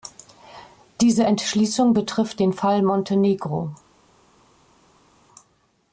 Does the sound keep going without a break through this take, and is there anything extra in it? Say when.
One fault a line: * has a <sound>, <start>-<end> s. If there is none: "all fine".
all fine